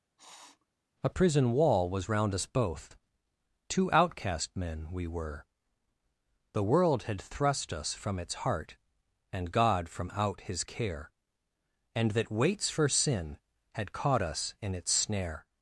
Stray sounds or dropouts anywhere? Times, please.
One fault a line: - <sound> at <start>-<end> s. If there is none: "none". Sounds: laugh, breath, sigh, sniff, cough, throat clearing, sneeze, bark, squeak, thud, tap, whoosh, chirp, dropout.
- sniff at 0.2-0.7 s